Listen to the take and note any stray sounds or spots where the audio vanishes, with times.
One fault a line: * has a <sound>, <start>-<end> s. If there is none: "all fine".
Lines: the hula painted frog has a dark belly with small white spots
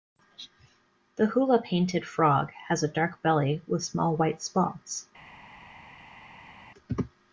all fine